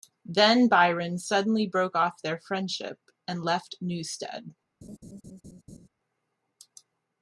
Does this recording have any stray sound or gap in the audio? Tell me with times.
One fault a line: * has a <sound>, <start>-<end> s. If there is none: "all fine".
* has a laugh, 4.8-5.9 s